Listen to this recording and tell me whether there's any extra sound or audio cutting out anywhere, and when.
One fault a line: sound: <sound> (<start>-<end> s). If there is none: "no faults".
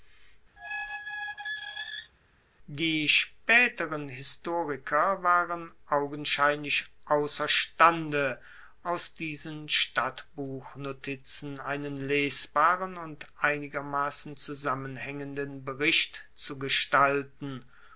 sound: squeak (0.6-2.1 s)